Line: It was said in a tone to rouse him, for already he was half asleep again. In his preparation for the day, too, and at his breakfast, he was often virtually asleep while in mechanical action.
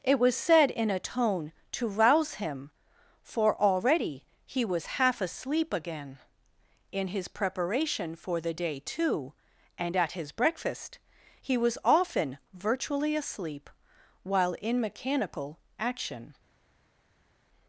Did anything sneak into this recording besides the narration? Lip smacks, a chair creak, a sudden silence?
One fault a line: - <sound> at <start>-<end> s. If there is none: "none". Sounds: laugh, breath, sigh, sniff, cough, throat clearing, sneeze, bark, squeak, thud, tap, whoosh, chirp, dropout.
none